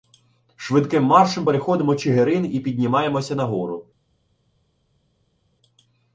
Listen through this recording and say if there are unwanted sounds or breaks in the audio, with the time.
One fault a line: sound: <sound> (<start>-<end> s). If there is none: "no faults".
no faults